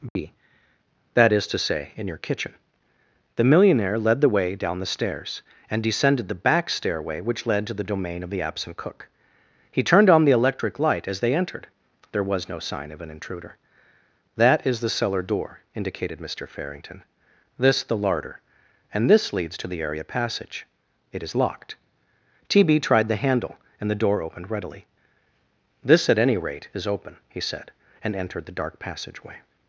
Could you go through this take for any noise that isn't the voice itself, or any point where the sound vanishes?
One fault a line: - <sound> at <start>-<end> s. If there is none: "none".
- dropout at 0.1-0.2 s